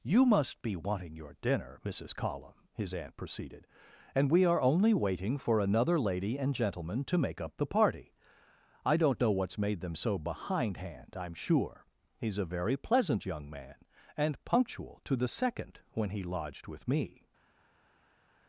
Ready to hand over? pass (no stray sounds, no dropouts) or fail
pass